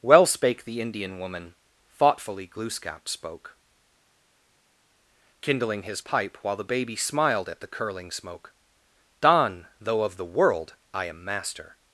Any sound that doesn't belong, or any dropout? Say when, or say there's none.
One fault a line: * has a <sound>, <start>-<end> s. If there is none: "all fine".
all fine